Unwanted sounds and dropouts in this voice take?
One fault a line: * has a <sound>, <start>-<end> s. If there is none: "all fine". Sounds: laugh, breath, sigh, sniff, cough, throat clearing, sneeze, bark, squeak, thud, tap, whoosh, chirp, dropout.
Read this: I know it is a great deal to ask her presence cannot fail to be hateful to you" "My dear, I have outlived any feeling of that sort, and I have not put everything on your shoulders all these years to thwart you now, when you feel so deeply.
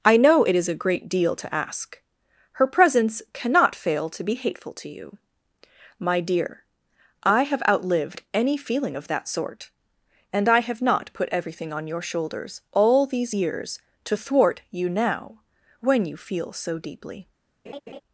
* has a laugh, 17.7-18.0 s